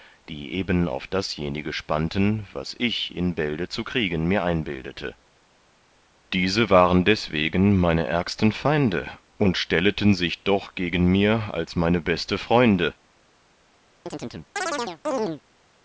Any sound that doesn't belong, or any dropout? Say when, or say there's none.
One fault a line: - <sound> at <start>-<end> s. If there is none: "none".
- chirp at 14.1-15.4 s